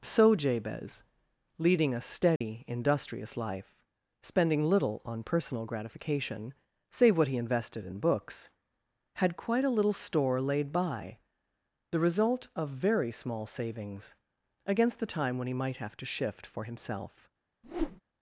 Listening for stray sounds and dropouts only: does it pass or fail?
fail